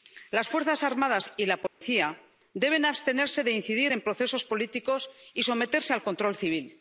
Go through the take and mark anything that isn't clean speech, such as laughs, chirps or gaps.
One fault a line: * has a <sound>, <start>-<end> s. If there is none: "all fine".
* has a dropout, 1.7-1.8 s